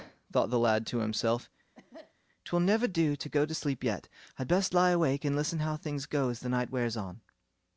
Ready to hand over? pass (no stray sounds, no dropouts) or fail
fail